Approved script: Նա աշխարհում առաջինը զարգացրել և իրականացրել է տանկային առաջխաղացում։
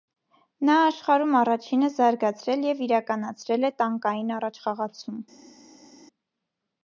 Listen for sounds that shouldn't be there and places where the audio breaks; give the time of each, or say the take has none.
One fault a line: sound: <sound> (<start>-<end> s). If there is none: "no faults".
no faults